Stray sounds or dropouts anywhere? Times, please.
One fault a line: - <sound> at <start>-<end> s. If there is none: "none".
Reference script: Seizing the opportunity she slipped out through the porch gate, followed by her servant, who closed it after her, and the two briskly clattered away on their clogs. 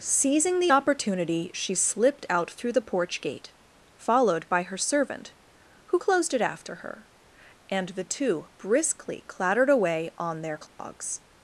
- dropout at 10.7-10.8 s